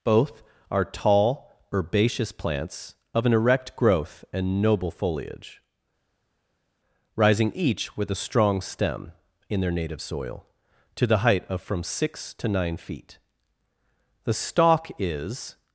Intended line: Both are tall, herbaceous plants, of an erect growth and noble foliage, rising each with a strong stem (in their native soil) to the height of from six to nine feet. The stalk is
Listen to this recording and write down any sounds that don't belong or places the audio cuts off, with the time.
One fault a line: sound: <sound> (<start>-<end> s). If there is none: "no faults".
no faults